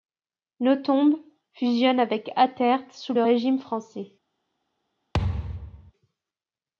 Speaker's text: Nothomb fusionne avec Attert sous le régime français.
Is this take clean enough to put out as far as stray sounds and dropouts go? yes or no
no